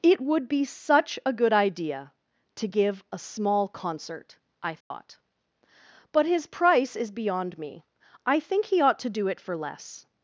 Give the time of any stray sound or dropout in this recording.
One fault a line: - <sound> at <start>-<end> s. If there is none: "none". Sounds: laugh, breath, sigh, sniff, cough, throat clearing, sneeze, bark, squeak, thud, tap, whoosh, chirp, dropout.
- dropout at 4.8-4.9 s